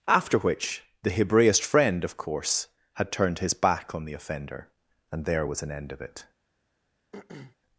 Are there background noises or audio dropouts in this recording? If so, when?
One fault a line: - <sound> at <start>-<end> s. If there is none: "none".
- throat clearing at 7.1-7.6 s